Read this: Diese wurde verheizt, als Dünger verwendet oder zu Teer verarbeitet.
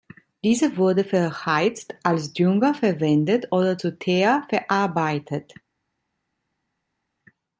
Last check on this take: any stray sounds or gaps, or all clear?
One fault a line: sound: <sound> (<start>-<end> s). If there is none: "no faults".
no faults